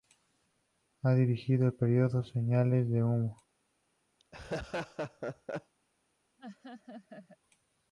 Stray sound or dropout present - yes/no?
yes